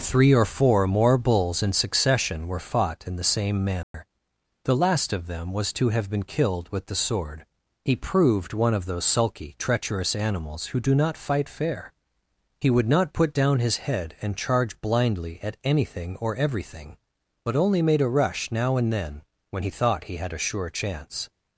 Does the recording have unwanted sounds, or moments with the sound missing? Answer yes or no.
yes